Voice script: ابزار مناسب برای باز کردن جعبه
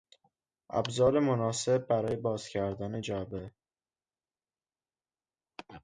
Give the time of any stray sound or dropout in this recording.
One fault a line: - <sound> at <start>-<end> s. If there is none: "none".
none